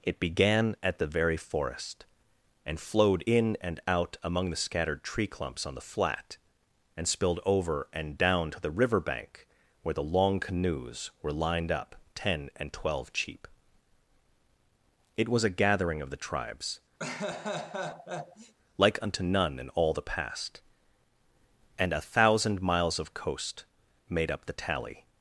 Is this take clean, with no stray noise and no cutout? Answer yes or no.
no